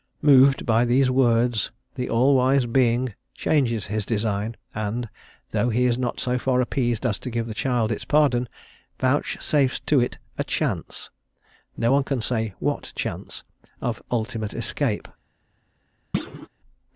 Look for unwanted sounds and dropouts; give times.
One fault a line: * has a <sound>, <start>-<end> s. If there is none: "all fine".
* has a thud, 16.1-16.5 s